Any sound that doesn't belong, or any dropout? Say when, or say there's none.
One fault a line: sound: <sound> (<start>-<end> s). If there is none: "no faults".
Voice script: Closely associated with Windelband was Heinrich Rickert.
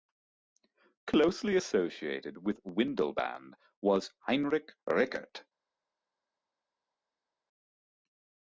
no faults